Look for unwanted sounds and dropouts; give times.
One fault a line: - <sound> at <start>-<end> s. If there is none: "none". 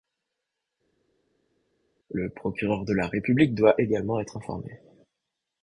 none